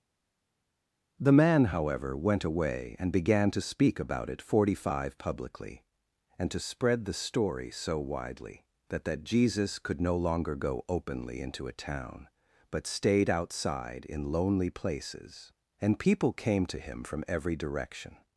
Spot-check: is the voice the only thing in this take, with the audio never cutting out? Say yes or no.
yes